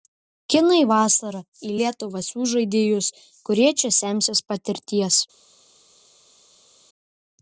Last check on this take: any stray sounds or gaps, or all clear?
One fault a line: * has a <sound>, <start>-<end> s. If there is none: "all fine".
all fine